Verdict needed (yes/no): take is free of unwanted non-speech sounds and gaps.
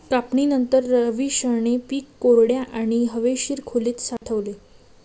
no